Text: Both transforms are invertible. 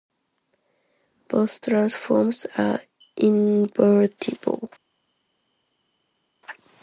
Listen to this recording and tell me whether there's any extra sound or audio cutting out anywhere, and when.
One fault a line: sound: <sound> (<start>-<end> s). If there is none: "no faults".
no faults